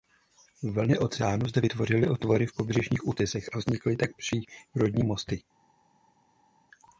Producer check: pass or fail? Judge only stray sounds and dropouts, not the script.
pass